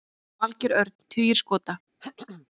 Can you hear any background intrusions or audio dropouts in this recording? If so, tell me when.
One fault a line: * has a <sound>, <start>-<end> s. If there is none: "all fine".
* has a throat clearing, 2.0-2.5 s